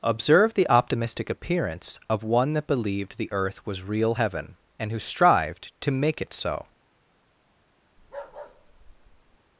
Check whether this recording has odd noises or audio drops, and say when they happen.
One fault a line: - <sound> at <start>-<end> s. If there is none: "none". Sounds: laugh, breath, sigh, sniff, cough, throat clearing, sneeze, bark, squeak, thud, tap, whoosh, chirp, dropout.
- bark at 8.0-9.4 s